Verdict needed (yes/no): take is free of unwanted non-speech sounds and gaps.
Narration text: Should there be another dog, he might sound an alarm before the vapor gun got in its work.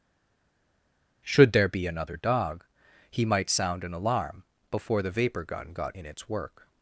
yes